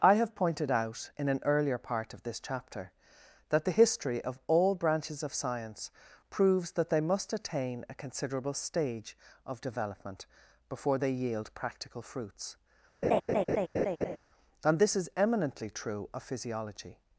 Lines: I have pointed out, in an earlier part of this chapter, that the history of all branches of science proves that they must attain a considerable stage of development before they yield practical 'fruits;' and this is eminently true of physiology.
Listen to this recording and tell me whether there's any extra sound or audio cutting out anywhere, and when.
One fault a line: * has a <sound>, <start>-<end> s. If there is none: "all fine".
* has a laugh, 13.0-14.2 s